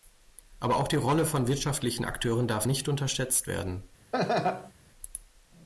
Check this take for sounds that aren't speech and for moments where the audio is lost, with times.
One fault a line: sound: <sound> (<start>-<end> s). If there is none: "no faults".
sound: laugh (4.1-4.7 s)